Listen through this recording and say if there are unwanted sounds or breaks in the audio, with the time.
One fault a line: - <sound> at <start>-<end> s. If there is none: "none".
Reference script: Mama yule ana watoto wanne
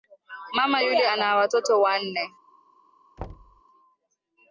- thud at 3.2-3.6 s